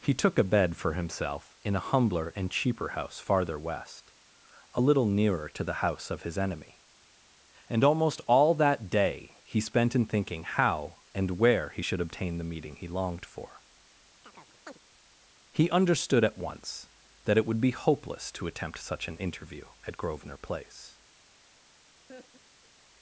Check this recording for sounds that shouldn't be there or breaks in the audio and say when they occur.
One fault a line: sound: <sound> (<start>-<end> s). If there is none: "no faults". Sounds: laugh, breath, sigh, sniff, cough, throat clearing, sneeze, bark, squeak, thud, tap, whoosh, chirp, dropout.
sound: chirp (14.2-14.8 s)
sound: laugh (22.1-22.7 s)